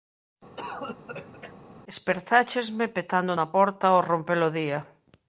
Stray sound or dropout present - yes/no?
yes